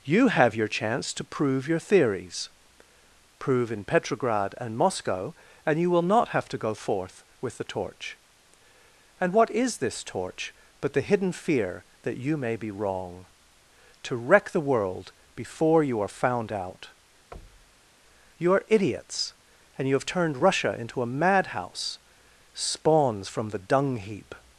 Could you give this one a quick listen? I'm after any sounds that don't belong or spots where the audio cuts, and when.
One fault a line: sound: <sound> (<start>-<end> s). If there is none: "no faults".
sound: thud (17.3-17.9 s)